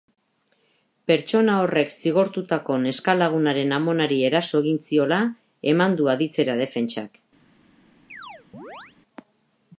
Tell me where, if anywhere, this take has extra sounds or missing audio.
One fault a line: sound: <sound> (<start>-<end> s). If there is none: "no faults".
sound: chirp (8.1-9.0 s)